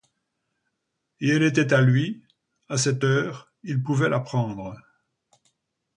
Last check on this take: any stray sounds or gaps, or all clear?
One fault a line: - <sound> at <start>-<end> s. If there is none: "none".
none